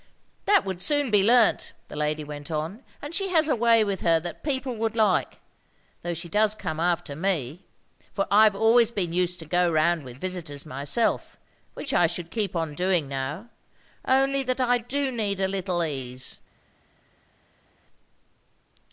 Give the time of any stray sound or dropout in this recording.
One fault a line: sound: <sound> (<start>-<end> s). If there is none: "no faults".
no faults